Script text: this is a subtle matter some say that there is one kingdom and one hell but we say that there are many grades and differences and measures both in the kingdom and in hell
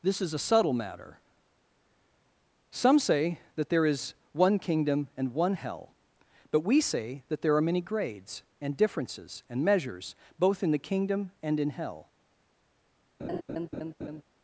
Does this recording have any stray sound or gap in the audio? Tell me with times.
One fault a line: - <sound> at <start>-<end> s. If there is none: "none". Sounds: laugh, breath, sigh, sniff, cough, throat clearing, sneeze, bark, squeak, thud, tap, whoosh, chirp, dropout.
- laugh at 13.2-14.2 s